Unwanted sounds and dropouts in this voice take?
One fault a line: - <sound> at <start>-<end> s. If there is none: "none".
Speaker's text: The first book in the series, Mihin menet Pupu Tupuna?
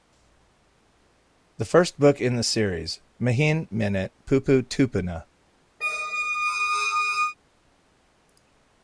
- squeak at 5.8-7.4 s